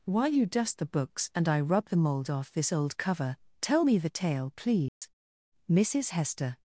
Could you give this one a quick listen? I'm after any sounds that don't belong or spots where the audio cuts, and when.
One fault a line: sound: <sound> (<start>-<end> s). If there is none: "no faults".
sound: dropout (4.9-5.0 s)